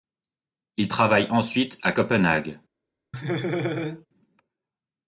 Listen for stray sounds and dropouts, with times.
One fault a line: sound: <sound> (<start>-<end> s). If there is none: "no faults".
sound: laugh (3.1-4.1 s)